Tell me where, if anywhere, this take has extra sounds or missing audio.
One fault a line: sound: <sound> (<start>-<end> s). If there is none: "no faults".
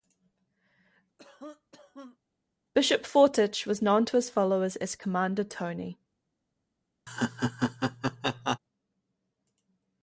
sound: cough (1.2-2.2 s)
sound: laugh (7.1-8.6 s)